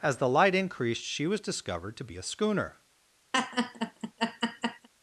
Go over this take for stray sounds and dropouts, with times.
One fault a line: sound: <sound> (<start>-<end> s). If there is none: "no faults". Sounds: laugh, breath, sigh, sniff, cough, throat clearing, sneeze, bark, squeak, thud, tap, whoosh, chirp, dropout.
sound: laugh (3.3-4.9 s)